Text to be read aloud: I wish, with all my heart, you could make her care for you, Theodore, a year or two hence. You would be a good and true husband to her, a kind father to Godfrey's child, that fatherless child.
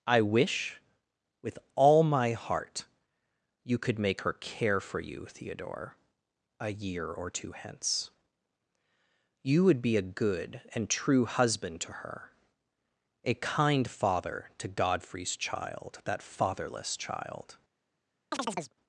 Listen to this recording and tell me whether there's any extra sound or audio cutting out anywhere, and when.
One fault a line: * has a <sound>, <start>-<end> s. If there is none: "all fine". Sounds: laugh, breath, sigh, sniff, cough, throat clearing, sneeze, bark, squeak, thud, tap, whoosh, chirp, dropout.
* has a chirp, 18.3-18.7 s